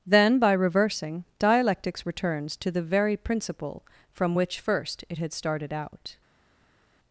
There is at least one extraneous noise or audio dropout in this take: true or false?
false